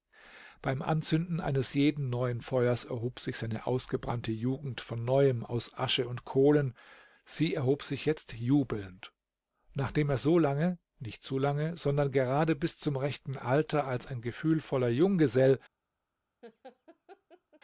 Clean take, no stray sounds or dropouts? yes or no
no